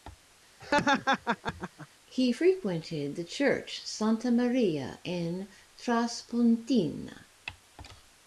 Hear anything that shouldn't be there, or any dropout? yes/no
yes